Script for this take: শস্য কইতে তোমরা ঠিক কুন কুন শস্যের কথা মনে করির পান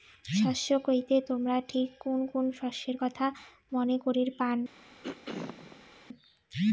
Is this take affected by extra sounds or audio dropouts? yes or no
yes